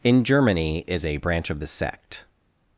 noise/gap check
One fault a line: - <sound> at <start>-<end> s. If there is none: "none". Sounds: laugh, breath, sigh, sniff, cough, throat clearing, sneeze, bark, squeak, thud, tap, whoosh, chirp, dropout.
none